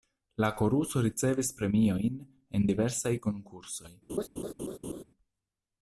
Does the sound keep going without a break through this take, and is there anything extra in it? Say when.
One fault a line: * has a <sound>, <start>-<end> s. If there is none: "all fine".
* has a laugh, 4.1-5.0 s